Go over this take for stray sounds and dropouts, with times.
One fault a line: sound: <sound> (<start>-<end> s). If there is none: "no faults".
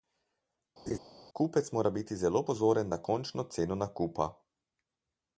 sound: laugh (0.9-1.0 s)